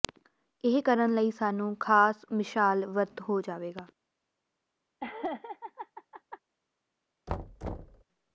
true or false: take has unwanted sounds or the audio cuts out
true